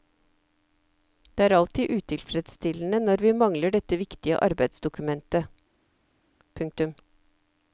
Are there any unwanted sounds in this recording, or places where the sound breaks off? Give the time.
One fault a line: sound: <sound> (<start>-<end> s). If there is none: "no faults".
no faults